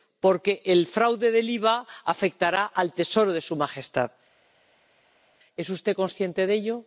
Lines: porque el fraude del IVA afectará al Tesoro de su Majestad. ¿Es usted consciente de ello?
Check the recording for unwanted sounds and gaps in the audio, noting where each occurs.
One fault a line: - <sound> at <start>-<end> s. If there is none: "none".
none